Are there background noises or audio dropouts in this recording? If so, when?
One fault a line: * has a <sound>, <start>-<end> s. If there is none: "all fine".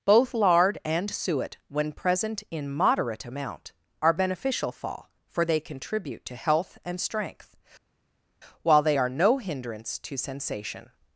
all fine